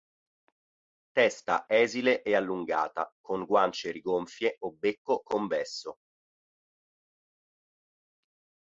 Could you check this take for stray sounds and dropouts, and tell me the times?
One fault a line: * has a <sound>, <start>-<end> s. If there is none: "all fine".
all fine